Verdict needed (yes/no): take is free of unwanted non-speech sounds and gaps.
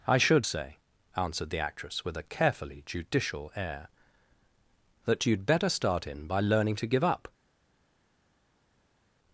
yes